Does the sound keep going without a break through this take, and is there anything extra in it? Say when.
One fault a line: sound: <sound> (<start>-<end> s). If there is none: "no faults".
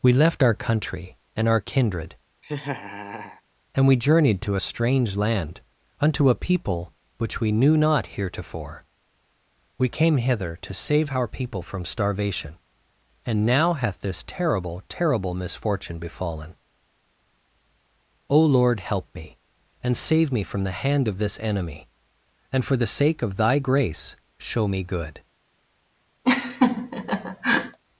sound: laugh (2.4-3.4 s)
sound: laugh (26.2-27.8 s)